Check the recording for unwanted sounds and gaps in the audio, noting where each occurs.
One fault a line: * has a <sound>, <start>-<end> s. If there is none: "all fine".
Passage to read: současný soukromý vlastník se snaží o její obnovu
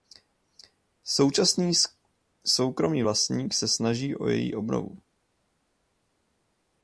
all fine